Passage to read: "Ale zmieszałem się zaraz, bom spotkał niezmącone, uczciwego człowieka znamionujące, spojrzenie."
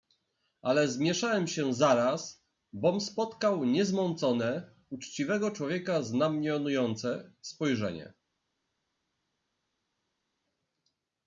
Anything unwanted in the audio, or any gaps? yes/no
no